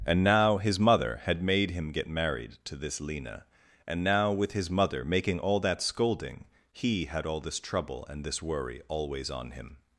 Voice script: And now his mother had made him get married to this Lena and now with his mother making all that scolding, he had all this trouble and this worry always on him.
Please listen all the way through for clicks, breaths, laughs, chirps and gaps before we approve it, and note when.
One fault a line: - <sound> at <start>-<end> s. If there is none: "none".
none